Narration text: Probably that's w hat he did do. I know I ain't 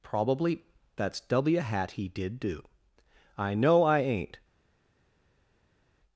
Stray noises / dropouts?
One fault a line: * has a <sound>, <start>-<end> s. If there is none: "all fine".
all fine